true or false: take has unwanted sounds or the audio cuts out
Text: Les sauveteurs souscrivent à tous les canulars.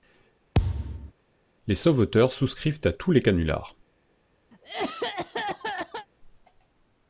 true